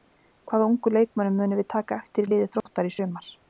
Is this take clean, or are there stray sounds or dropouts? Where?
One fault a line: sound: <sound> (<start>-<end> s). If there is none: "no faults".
sound: dropout (2.6-2.7 s)